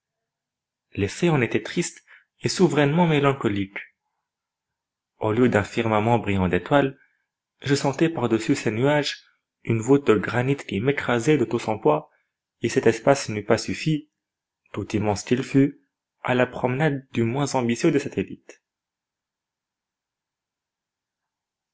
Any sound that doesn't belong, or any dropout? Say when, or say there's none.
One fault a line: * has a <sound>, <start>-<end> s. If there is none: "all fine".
all fine